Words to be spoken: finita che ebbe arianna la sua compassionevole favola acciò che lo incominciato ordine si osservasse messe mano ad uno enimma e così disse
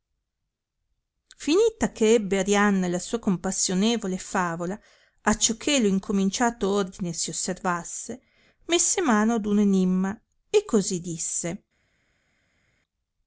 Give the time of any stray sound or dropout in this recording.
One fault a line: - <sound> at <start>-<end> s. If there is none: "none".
none